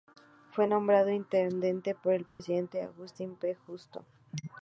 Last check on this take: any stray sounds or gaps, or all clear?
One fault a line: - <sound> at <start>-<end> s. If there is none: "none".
- dropout at 2.3-2.4 s